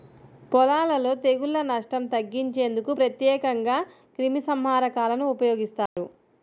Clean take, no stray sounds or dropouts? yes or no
no